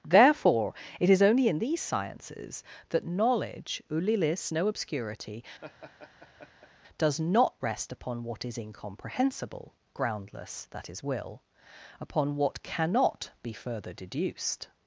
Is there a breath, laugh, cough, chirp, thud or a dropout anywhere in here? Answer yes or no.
yes